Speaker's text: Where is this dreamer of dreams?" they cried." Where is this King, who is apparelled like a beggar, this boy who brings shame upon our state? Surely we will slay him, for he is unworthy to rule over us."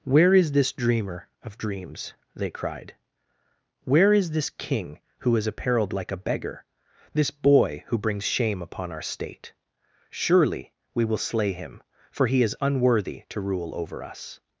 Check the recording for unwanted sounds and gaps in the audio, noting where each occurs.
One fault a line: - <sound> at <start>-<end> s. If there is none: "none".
none